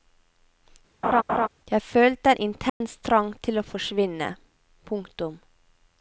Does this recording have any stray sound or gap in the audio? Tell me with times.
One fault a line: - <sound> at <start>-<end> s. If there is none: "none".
- laugh at 1.0-1.5 s
- dropout at 2.7-2.8 s